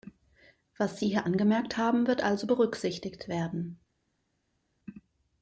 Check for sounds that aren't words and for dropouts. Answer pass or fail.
pass